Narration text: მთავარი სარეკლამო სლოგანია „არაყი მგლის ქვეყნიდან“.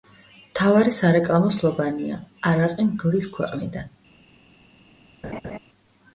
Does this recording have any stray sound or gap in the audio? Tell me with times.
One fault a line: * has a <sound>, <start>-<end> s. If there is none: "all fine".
* has a laugh, 5.2-5.6 s